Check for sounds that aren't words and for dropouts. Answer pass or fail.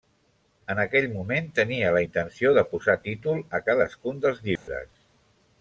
fail